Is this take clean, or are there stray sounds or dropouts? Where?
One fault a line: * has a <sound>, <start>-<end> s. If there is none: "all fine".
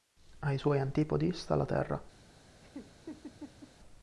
* has a laugh, 2.6-3.7 s